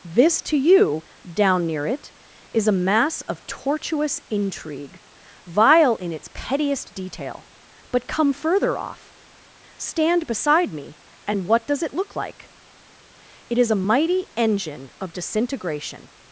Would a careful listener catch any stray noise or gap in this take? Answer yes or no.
no